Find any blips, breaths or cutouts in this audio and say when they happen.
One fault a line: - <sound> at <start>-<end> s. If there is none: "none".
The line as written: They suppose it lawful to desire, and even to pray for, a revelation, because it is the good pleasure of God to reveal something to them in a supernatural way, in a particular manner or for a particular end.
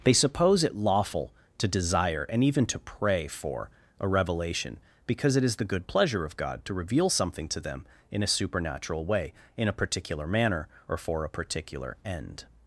none